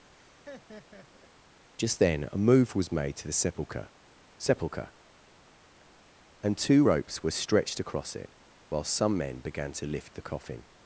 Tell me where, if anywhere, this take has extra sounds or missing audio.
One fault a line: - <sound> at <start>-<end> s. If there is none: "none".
- laugh at 0.1-1.3 s